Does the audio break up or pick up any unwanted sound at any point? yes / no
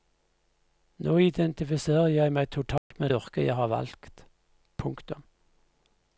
yes